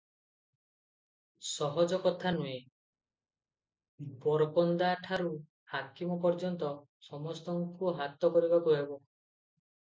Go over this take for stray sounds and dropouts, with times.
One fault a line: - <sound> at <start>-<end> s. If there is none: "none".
none